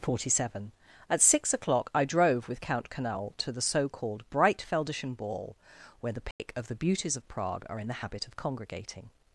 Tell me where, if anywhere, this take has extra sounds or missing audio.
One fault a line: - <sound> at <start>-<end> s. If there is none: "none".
- dropout at 6.3-6.4 s